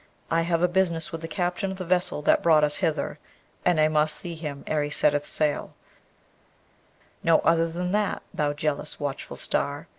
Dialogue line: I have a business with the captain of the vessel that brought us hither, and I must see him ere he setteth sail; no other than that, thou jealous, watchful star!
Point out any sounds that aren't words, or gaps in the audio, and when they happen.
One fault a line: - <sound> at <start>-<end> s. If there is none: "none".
none